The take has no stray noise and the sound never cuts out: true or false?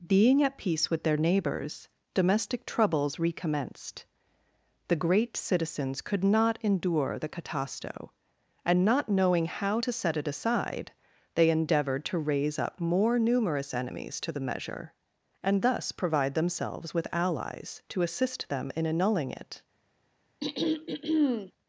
false